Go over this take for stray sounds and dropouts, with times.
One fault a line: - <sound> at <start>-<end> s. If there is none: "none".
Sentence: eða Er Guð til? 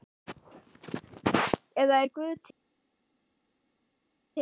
none